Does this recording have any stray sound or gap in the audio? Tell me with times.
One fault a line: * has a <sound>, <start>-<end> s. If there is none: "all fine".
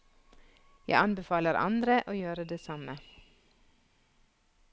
all fine